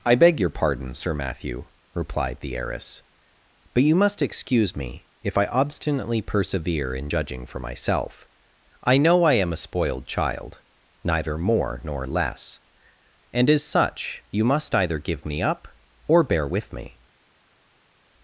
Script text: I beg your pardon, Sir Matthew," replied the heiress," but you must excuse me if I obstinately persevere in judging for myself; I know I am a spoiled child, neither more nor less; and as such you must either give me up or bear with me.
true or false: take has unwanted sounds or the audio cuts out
false